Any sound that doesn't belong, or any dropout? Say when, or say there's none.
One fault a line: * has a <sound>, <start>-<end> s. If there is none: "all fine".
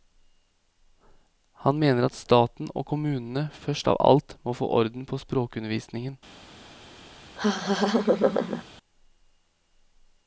* has a laugh, 7.4-8.6 s